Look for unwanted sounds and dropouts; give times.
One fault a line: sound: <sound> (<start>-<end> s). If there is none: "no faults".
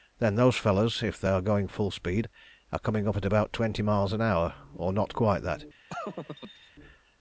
sound: laugh (5.9-6.7 s)